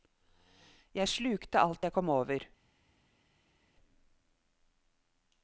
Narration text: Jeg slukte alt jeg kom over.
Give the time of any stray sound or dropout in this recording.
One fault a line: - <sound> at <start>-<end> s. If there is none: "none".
none